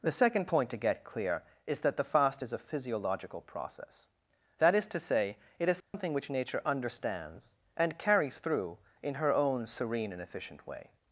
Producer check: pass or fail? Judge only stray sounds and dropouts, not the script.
fail